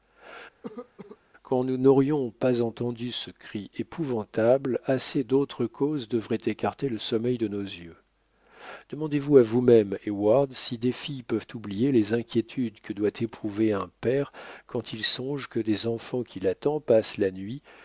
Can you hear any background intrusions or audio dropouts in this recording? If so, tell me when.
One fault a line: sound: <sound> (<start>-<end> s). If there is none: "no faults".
sound: cough (0.6-1.2 s)